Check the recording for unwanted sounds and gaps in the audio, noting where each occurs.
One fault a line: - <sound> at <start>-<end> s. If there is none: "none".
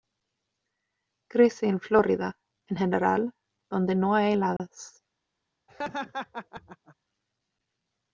- dropout at 4.6-4.6 s
- laugh at 5.7-7.0 s